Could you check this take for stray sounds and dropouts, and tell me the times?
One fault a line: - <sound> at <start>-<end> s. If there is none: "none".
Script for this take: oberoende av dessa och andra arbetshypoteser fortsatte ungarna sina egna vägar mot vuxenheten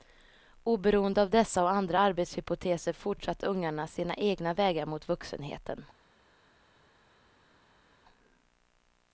none